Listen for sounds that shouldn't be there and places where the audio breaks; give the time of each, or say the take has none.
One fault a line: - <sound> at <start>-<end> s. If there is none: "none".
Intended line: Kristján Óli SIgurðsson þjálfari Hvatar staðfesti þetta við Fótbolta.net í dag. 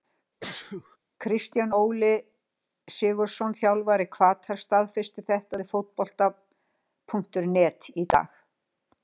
- sneeze at 0.4-1.0 s